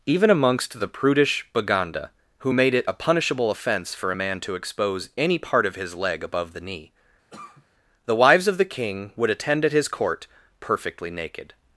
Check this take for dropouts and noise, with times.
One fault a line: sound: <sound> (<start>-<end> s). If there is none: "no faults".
sound: cough (7.3-7.7 s)